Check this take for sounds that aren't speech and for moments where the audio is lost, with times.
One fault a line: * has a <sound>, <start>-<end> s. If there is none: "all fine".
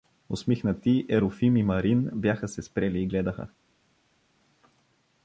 all fine